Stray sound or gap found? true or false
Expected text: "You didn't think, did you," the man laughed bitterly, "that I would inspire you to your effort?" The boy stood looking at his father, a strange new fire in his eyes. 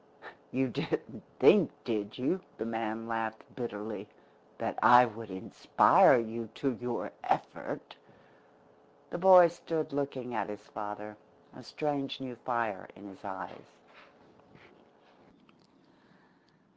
false